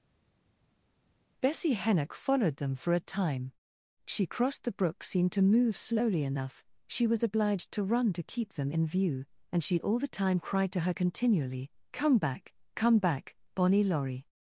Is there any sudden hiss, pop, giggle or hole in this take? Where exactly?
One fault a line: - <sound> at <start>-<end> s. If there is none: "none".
none